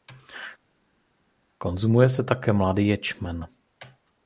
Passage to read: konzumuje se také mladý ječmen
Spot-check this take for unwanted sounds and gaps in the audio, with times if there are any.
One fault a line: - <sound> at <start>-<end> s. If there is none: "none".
none